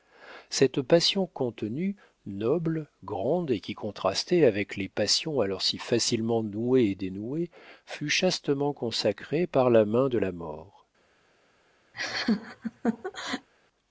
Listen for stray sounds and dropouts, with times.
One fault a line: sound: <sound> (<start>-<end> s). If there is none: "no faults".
sound: laugh (11.9-13.5 s)